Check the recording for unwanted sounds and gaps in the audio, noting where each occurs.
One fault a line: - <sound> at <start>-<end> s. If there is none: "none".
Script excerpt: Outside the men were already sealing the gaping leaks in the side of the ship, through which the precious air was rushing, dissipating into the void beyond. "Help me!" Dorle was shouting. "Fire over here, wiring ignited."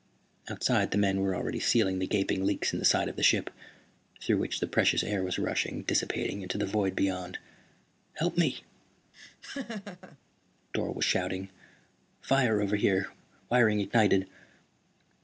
- laugh at 9.1-10.2 s